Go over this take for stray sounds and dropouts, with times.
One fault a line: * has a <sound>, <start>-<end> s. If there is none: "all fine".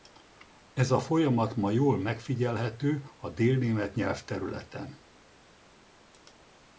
all fine